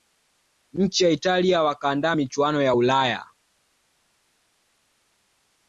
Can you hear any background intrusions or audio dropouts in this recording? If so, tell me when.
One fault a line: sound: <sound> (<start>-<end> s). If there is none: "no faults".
no faults